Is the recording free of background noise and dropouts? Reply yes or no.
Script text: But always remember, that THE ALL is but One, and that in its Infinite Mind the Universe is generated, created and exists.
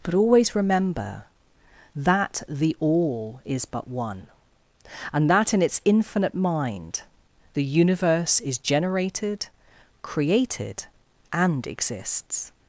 yes